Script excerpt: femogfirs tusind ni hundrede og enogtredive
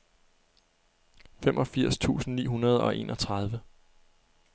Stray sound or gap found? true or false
false